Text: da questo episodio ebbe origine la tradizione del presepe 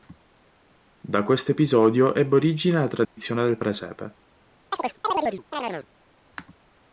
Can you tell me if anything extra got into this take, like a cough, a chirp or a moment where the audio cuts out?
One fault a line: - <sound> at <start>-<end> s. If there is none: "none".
- dropout at 3.0-3.2 s
- chirp at 4.7-5.9 s